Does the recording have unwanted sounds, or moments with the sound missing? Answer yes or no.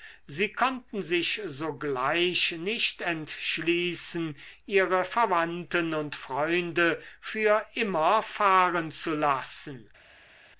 no